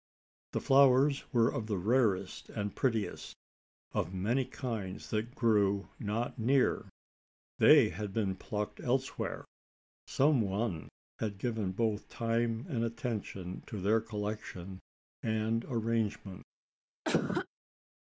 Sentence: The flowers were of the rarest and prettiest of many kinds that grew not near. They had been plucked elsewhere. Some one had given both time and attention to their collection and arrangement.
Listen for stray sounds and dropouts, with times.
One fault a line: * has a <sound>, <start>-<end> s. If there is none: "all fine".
* has a cough, 17.0-17.5 s